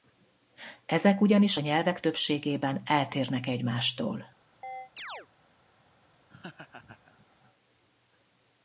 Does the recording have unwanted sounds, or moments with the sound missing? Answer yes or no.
yes